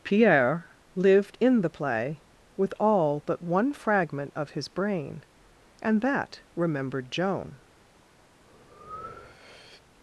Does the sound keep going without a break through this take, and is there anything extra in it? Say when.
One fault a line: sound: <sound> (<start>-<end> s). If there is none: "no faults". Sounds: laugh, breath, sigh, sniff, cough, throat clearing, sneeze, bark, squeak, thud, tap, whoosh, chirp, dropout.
sound: breath (8.4-9.8 s)